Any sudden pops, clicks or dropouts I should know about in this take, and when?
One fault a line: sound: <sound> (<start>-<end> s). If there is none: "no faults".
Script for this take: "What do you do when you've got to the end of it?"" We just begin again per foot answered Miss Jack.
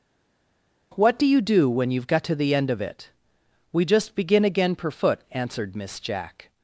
no faults